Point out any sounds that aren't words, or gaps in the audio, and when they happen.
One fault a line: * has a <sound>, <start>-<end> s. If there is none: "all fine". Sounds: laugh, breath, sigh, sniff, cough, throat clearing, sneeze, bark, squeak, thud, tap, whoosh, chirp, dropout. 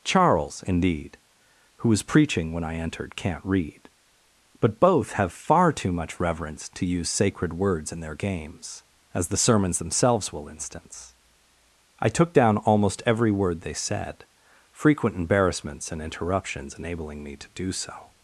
all fine